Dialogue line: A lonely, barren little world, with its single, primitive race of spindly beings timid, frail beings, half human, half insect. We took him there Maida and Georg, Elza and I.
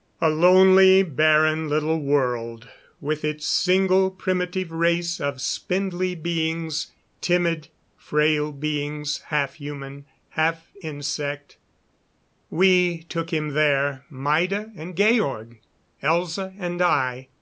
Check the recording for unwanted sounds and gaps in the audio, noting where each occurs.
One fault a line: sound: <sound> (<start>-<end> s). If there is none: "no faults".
no faults